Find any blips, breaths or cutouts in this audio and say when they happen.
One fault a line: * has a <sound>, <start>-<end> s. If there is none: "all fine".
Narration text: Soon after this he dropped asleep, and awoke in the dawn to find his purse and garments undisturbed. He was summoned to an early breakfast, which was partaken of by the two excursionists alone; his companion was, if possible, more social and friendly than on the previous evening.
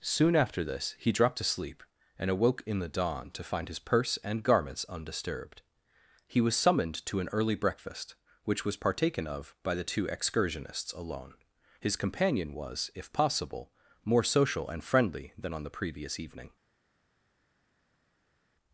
all fine